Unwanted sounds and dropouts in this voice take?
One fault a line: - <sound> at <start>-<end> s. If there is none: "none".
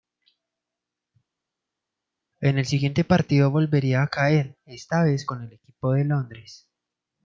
none